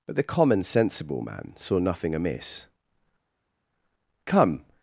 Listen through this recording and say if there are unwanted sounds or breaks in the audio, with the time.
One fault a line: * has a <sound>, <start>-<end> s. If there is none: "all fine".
all fine